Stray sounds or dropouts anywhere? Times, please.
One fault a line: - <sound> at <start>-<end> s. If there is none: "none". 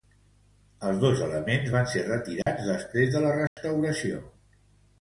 - dropout at 2.4-2.5 s
- dropout at 3.5-3.6 s